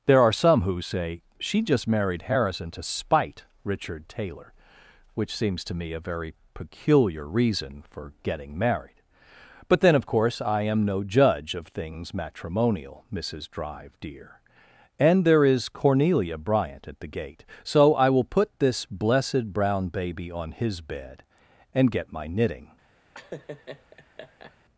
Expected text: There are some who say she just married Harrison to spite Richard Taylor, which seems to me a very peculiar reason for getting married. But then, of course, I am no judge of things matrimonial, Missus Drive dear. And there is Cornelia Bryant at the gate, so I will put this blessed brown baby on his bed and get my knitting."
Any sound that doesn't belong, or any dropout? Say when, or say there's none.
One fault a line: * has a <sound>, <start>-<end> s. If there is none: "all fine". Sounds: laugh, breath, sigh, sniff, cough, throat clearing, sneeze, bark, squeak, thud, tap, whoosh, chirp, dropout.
* has a laugh, 23.1-24.6 s